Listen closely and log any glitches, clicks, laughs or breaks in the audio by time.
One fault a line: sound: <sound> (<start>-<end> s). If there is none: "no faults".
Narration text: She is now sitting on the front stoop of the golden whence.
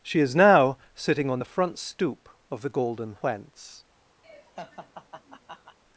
sound: laugh (4.2-5.8 s)